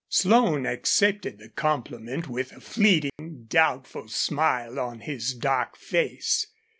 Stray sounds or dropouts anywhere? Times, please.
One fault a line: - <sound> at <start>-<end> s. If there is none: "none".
- dropout at 3.1-3.2 s